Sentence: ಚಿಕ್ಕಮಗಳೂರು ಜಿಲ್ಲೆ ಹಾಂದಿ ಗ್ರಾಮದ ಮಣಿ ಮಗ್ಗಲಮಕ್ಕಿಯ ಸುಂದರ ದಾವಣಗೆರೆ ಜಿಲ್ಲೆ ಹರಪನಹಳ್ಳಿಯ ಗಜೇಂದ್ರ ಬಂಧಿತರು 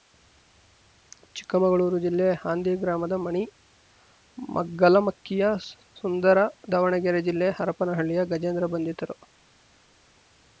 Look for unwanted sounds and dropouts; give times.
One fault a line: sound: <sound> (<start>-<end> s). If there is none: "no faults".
no faults